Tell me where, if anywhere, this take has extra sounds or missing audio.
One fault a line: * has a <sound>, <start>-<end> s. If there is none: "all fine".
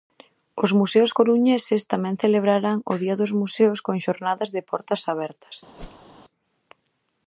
* has a whoosh, 5.8-6.2 s